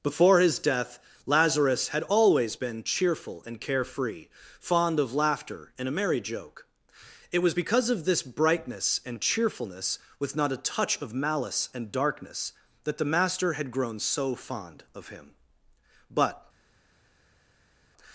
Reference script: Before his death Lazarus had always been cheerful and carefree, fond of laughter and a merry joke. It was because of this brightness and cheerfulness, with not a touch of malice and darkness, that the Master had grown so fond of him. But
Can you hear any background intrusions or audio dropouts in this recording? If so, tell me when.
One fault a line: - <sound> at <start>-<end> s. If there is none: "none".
none